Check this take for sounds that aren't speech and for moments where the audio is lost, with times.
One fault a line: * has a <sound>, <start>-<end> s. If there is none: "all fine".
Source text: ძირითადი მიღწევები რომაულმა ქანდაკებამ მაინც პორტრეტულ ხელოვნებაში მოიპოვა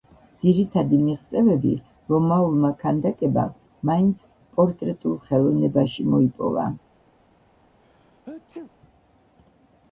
* has a sneeze, 7.8-8.7 s